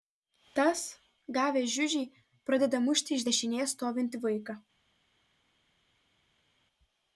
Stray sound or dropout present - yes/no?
no